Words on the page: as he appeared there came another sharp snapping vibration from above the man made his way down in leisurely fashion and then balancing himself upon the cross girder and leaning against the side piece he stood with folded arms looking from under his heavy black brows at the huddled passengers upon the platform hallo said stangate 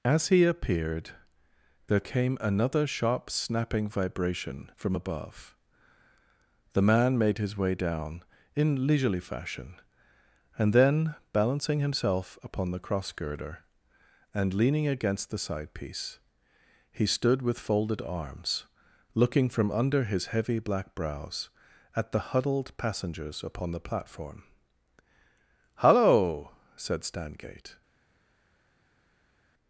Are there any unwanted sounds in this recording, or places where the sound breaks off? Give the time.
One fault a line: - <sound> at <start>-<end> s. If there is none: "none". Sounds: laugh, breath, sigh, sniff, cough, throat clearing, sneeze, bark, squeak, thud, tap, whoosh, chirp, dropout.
none